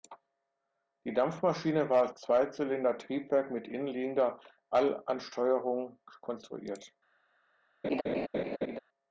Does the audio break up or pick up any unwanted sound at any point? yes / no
yes